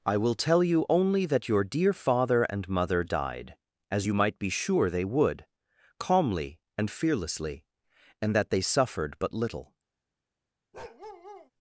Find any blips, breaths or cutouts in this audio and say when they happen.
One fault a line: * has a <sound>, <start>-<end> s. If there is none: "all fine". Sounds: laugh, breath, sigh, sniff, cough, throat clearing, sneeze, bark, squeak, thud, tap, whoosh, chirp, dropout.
* has a bark, 10.7-11.5 s